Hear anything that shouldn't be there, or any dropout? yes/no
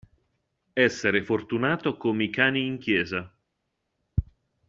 no